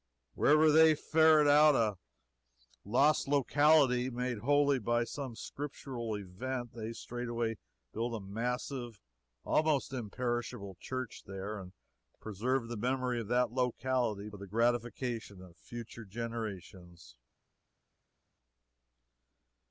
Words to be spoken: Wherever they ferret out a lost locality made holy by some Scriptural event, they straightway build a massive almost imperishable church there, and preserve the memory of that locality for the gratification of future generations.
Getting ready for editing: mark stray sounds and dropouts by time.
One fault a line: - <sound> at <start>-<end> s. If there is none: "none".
none